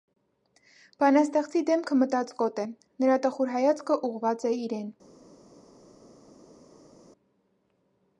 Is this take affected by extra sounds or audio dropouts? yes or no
no